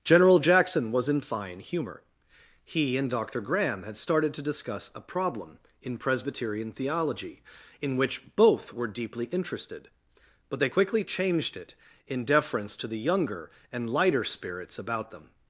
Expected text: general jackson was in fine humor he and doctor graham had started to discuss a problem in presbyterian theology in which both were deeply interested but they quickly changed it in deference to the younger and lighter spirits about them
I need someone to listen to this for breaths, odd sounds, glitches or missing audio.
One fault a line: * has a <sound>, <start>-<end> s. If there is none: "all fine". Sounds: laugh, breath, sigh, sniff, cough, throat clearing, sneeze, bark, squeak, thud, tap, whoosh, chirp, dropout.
all fine